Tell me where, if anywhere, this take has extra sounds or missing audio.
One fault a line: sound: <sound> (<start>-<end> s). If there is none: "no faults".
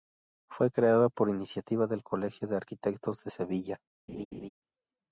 sound: laugh (4.1-4.5 s)